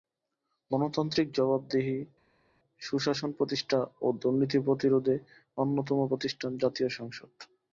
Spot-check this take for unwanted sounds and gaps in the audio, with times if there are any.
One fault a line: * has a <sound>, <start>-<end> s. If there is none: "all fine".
all fine